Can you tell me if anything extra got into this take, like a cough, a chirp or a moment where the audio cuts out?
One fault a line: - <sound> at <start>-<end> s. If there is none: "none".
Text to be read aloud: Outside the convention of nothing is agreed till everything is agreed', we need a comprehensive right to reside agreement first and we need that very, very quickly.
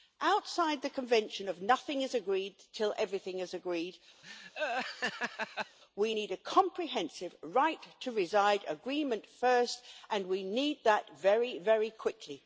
- laugh at 4.2-5.8 s